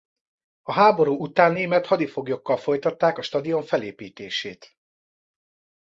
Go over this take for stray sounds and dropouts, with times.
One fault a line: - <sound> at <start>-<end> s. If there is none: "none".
none